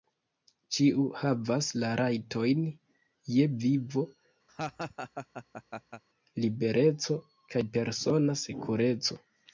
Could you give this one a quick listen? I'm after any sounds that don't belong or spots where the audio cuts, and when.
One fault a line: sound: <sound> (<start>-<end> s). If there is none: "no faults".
sound: laugh (4.5-6.0 s)